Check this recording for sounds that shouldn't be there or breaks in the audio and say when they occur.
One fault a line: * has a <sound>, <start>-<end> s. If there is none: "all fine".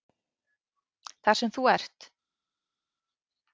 all fine